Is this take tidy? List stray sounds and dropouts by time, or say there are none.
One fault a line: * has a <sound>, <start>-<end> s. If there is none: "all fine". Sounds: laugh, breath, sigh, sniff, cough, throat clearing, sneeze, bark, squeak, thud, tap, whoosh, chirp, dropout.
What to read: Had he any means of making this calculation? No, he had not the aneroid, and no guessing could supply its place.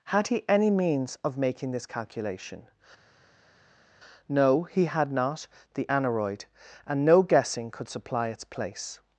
all fine